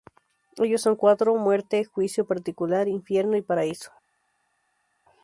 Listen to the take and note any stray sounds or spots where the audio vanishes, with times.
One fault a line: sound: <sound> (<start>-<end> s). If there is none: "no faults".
no faults